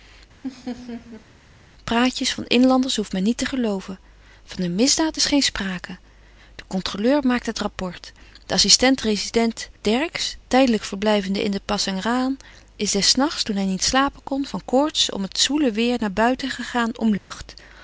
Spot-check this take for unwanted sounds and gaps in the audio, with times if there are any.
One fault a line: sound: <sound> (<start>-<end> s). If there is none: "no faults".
sound: laugh (0.4-1.3 s)
sound: dropout (17.2-17.3 s)